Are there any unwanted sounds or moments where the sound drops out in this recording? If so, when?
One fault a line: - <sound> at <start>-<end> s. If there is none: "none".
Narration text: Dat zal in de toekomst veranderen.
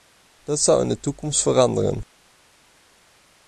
none